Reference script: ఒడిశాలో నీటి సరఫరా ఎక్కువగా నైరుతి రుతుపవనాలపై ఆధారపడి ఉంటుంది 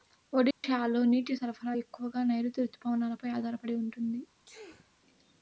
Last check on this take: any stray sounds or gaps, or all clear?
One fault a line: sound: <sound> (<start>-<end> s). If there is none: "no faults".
sound: dropout (0.5-0.6 s)
sound: sneeze (4.5-4.9 s)